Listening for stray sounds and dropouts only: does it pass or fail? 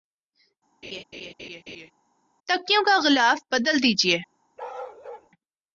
fail